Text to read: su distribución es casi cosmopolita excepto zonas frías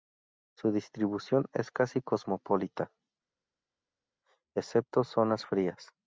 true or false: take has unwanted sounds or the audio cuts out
false